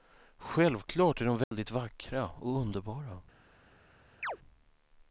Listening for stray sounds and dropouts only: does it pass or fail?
fail